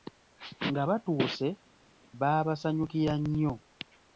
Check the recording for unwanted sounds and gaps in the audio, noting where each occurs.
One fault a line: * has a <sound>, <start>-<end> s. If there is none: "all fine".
all fine